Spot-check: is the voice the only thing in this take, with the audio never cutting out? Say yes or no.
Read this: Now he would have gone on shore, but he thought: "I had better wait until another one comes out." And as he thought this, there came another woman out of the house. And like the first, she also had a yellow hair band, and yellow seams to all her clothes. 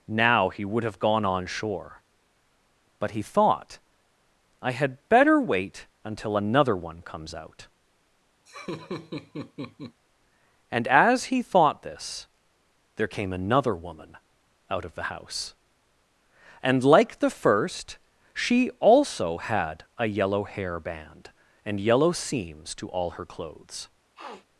no